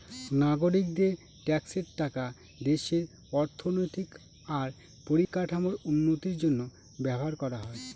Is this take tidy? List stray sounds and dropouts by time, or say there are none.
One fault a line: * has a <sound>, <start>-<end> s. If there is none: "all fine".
* has a dropout, 5.2-5.3 s